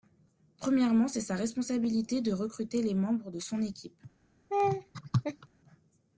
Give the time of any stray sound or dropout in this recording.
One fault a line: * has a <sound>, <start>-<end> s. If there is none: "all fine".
* has a laugh, 4.5-5.5 s